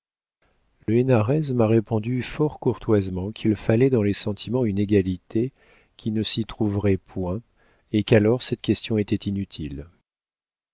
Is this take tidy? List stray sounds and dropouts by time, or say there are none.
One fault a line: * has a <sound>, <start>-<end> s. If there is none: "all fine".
* has a dropout, 0.8-0.9 s